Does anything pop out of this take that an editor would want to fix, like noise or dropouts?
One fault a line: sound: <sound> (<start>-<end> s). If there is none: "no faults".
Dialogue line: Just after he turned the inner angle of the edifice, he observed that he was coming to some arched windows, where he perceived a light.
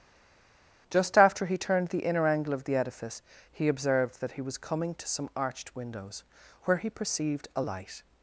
no faults